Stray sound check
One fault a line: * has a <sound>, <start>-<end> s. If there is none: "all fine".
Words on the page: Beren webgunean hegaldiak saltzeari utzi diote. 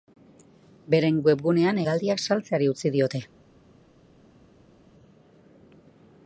all fine